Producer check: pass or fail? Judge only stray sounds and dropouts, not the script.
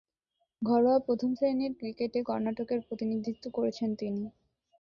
pass